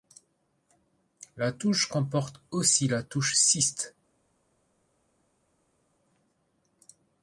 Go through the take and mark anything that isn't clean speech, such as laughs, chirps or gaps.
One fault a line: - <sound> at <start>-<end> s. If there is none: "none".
none